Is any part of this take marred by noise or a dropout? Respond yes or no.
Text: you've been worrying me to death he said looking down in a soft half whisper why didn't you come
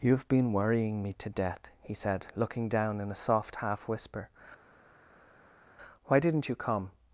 no